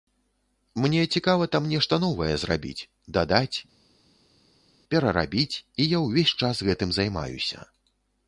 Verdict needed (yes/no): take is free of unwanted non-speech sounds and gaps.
yes